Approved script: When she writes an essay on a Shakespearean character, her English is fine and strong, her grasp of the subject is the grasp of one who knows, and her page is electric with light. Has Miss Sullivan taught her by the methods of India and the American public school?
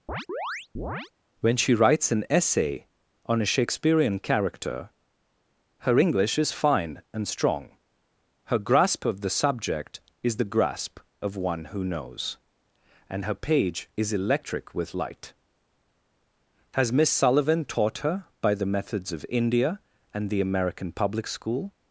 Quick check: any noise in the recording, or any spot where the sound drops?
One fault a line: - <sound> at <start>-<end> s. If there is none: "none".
- chirp at 0.1-1.1 s